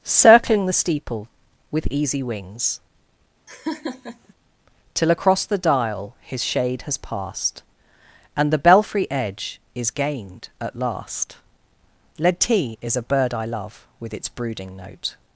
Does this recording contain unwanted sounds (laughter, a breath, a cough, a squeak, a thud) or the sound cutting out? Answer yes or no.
yes